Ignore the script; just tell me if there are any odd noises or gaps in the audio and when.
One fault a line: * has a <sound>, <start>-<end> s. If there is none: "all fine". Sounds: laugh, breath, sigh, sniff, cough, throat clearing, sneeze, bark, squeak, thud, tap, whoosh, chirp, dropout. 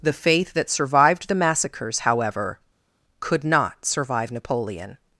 all fine